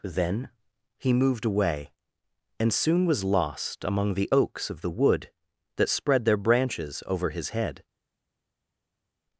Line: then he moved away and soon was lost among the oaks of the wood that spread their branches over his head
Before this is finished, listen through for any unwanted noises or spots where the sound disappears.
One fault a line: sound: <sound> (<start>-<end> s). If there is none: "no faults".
no faults